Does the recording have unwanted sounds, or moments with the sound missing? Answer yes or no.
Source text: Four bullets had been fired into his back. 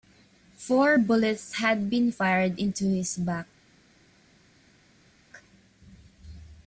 no